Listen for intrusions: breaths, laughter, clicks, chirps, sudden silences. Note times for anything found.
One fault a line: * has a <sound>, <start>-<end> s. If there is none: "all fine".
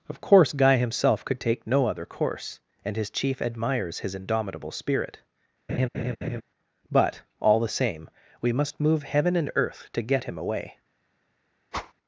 * has a laugh, 5.7-6.4 s
* has a whoosh, 11.7-11.9 s